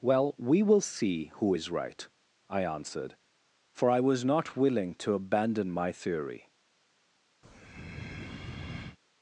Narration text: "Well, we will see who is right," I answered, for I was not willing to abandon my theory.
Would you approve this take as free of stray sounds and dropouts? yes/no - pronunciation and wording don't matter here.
no